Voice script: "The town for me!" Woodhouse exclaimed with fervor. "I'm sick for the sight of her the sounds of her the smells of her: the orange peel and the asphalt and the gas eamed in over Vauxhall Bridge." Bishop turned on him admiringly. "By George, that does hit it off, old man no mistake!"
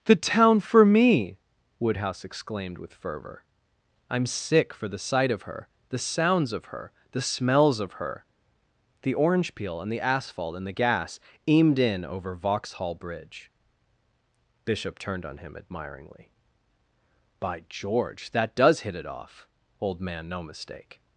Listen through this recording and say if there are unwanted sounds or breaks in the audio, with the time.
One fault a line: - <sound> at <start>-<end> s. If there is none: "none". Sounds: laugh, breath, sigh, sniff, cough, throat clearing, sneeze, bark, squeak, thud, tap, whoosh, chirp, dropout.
none